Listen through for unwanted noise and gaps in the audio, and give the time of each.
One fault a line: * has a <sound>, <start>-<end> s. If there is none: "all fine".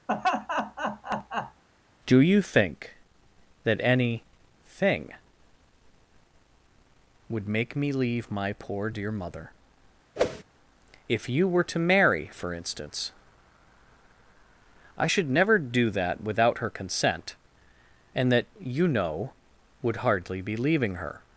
* has a laugh, 0.1-1.6 s
* has a whoosh, 10.2-10.4 s